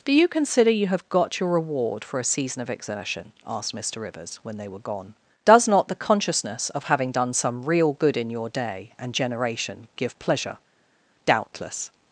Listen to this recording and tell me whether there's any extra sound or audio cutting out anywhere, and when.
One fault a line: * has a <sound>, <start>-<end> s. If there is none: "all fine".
all fine